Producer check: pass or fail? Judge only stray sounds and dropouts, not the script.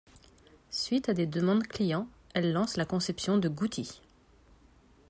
pass